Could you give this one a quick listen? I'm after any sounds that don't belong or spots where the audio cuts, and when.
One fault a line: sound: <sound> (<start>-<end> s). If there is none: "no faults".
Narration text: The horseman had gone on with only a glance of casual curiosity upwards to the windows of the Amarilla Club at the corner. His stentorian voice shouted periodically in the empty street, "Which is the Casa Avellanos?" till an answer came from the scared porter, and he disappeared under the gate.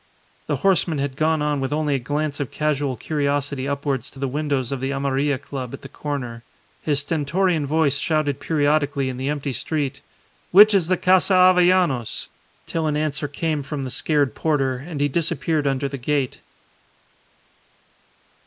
no faults